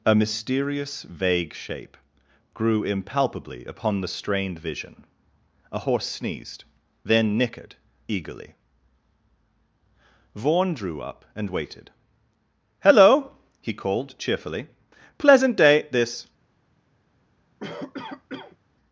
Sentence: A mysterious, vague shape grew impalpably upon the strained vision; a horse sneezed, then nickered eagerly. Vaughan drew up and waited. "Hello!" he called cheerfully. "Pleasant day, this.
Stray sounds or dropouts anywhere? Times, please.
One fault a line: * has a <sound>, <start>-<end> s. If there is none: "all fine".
* has a cough, 17.6-18.6 s